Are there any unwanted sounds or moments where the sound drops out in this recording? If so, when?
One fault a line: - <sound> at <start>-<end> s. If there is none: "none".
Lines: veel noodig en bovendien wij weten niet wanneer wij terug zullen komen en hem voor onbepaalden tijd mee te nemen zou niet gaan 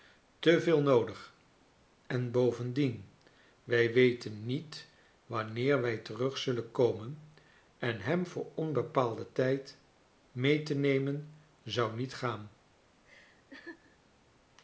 - laugh at 13.0-14.0 s